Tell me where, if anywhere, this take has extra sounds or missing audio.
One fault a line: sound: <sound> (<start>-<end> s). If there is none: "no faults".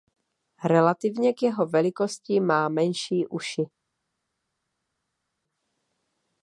no faults